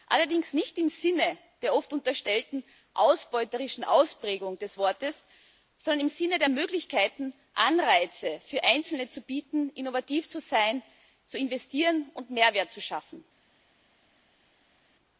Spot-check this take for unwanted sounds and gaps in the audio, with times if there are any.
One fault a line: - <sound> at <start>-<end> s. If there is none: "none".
none